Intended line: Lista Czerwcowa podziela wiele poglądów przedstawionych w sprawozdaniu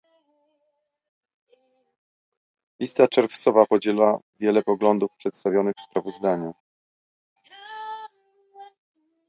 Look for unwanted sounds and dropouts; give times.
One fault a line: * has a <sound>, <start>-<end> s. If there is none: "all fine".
all fine